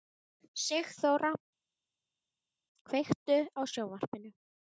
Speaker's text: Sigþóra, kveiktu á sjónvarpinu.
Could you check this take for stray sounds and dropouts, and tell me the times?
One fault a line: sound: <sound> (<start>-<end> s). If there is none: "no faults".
no faults